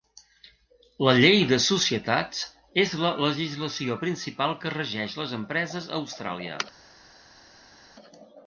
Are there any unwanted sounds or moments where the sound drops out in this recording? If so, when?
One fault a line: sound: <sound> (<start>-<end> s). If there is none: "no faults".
no faults